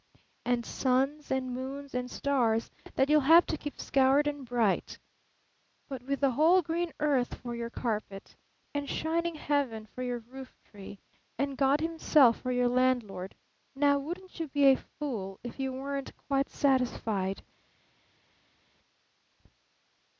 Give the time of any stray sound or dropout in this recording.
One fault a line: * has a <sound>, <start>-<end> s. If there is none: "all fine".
all fine